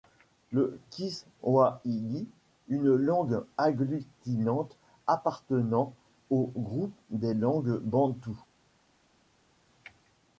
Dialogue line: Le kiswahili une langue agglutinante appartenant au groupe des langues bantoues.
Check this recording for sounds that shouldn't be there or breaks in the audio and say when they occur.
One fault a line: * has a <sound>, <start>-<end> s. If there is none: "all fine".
all fine